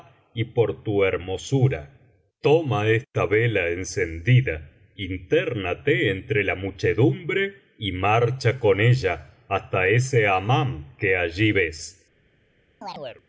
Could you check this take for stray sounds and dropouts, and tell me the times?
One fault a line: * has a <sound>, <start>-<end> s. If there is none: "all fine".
* has a chirp, 12.8-13.2 s